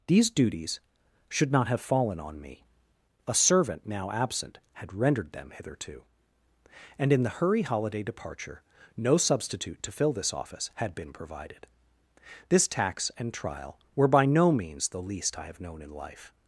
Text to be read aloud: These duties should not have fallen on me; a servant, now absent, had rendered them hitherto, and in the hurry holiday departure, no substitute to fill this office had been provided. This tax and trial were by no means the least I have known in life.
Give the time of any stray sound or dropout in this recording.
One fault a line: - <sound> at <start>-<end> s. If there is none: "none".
none